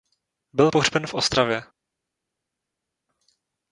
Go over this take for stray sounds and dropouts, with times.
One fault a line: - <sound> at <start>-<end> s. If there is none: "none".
none